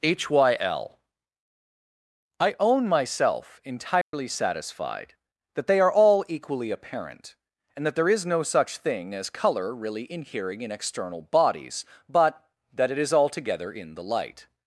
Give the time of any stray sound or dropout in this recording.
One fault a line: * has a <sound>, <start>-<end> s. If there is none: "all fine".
* has a dropout, 4.0-4.1 s